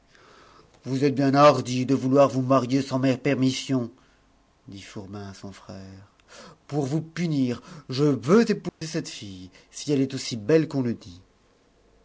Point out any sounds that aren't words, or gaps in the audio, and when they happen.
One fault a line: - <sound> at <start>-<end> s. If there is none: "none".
- dropout at 8.7-8.8 s